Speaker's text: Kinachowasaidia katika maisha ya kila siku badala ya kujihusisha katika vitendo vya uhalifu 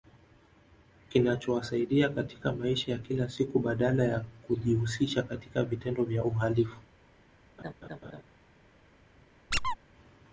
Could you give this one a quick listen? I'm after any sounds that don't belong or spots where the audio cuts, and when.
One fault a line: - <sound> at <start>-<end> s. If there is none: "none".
- laugh at 7.6-8.2 s
- squeak at 9.5-9.8 s